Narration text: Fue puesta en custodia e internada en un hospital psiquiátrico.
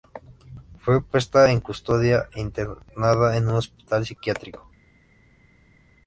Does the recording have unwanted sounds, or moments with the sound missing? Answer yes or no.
no